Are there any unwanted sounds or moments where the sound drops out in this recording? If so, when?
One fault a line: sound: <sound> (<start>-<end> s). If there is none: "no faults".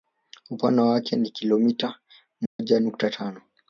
sound: dropout (2.5-2.6 s)